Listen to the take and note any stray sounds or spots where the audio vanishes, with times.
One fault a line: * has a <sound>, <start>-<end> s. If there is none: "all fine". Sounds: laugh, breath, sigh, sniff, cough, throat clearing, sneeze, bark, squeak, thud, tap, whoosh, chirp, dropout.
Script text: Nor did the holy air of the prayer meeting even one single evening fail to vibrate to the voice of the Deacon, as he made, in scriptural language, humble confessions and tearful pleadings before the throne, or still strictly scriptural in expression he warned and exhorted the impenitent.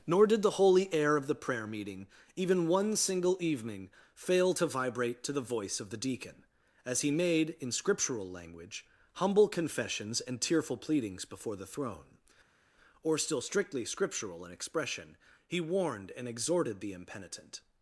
all fine